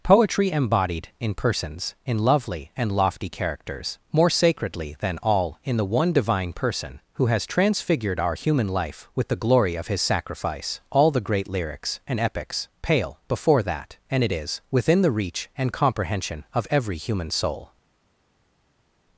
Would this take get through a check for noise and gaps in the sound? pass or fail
pass